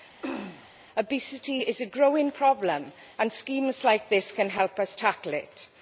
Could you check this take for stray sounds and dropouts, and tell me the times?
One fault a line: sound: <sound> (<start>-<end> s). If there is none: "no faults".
sound: throat clearing (0.2-0.7 s)